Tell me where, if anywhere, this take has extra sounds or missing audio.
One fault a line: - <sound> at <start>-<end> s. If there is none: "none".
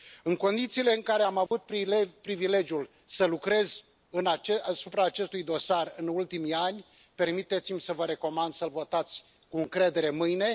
- dropout at 1.5-1.5 s